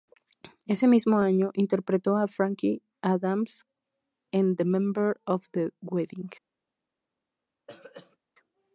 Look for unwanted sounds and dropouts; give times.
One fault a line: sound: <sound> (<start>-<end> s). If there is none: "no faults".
sound: throat clearing (7.7-8.2 s)